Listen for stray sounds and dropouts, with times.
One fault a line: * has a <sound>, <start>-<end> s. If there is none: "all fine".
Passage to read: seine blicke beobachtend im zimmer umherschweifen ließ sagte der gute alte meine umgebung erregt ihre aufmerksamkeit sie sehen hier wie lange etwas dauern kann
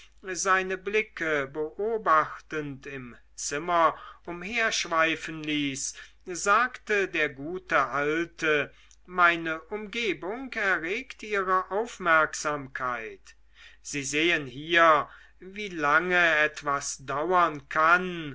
all fine